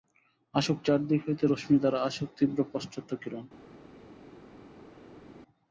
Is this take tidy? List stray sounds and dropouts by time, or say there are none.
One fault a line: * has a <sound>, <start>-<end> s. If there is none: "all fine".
all fine